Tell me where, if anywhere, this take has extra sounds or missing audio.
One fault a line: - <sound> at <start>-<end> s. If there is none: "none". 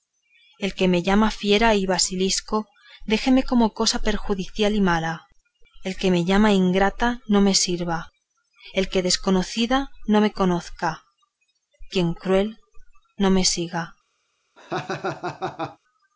- laugh at 14.6-15.8 s